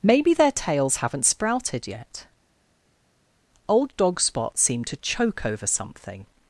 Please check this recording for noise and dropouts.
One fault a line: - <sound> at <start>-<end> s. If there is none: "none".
none